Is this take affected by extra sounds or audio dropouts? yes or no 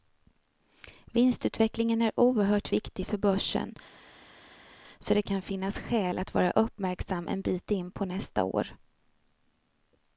no